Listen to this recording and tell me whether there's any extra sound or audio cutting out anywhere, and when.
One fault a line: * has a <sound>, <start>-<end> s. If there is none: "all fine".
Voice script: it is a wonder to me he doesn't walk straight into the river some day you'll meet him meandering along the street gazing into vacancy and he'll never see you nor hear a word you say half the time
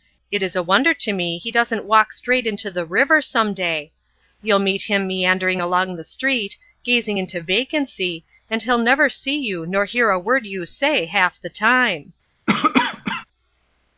* has a cough, 12.5-13.3 s